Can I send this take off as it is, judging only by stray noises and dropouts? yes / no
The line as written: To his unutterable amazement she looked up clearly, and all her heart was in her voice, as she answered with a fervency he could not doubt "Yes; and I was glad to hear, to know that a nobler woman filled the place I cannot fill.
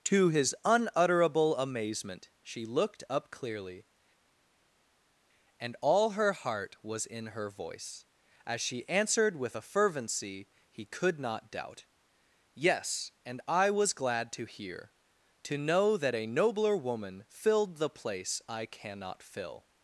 yes